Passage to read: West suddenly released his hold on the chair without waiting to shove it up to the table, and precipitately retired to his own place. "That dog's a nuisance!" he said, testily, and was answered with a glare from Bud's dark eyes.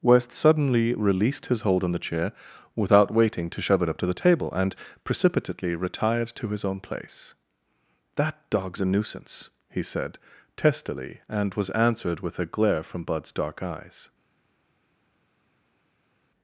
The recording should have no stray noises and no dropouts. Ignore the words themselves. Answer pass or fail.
pass